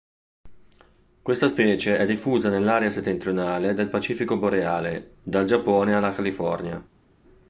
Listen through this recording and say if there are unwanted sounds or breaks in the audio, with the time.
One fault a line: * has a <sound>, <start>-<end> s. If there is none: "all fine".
all fine